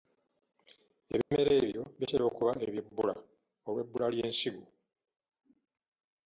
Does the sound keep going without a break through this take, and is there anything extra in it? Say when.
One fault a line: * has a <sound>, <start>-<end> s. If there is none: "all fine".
* has a dropout, 1.2-1.3 s